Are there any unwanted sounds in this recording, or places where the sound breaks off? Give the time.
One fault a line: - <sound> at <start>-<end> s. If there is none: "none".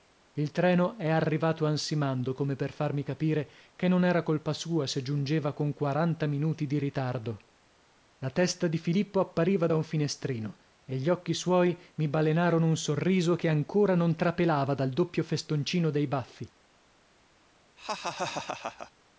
- laugh at 17.8-18.9 s